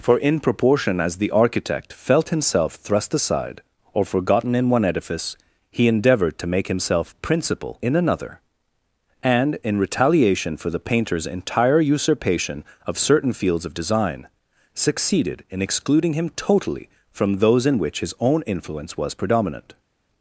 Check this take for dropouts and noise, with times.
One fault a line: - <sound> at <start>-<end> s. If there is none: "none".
none